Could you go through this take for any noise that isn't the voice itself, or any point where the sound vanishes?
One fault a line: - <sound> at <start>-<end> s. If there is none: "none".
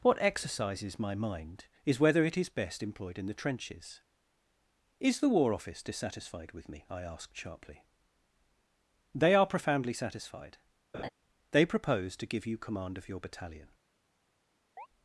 - laugh at 10.9-11.1 s
- chirp at 14.8-14.9 s